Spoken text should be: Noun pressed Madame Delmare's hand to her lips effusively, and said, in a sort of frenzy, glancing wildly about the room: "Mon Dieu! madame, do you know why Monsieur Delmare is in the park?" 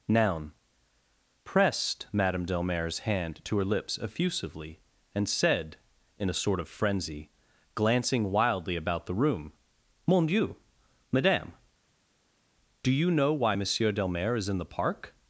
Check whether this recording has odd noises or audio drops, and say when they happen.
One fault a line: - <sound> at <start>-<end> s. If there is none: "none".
none